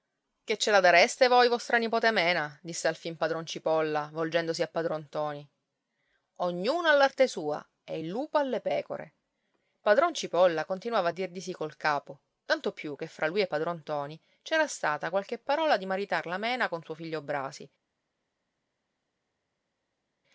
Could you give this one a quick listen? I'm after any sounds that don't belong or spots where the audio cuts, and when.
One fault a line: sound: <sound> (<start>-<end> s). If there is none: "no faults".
no faults